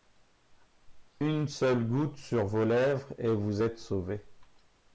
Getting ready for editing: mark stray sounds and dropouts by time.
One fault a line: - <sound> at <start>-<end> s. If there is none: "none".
none